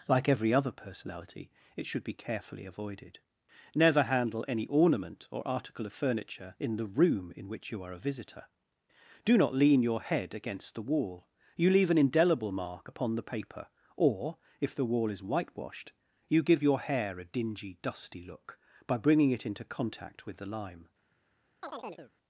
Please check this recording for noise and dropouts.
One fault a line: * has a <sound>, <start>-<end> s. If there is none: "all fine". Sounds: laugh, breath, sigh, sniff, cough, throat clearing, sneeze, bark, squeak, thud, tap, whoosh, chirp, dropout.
* has a chirp, 21.6-22.1 s